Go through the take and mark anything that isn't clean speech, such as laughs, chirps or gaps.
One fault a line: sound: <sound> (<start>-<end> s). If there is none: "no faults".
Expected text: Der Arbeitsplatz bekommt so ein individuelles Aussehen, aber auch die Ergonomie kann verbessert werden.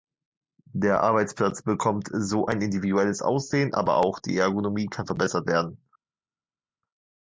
no faults